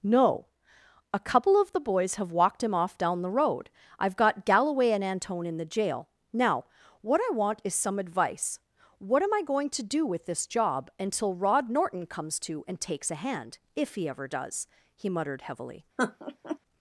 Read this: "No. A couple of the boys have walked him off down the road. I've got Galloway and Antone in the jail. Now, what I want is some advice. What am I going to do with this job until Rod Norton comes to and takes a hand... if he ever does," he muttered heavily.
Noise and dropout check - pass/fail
fail